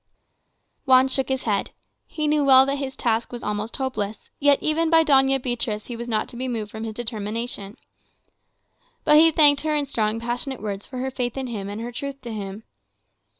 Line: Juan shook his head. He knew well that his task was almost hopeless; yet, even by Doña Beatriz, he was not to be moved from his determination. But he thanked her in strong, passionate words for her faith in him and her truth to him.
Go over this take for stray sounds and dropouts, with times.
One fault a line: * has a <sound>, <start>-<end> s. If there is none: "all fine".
all fine